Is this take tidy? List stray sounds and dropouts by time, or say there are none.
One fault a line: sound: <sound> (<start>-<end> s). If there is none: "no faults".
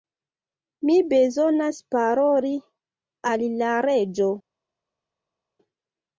no faults